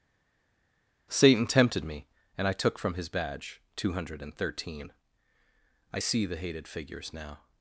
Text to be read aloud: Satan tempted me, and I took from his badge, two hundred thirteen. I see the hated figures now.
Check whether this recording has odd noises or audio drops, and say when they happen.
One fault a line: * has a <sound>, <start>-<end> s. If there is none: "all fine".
all fine